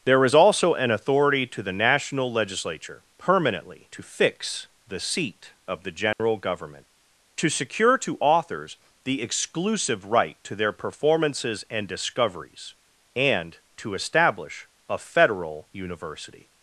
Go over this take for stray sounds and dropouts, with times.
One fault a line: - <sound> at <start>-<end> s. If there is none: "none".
- dropout at 6.1-6.2 s